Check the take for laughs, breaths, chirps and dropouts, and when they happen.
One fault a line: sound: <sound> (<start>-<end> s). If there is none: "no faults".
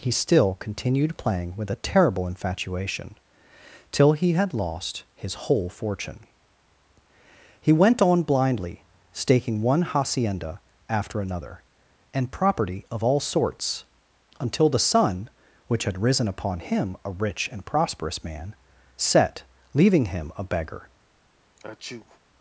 sound: sneeze (21.6-22.2 s)